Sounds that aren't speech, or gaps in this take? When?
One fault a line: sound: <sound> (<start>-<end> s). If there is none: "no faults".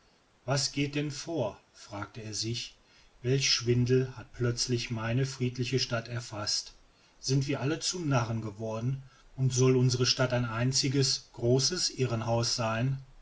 no faults